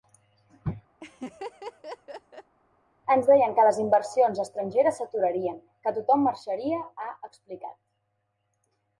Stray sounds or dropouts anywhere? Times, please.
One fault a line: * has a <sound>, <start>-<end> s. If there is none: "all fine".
* has a laugh, 1.0-2.5 s